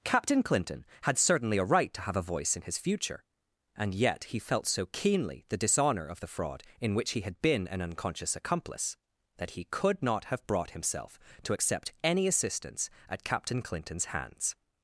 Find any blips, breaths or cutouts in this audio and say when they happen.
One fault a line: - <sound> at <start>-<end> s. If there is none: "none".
none